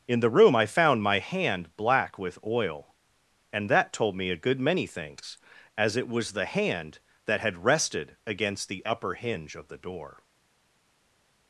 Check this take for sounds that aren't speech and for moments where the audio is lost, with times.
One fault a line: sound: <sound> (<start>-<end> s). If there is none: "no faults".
no faults